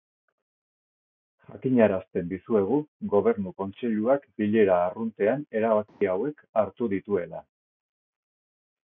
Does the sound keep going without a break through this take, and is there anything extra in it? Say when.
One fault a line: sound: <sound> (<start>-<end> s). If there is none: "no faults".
sound: dropout (5.9-6.0 s)